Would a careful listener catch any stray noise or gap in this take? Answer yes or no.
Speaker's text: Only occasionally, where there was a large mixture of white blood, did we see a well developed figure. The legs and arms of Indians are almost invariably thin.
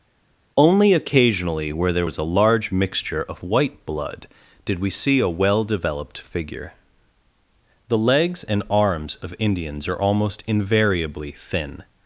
no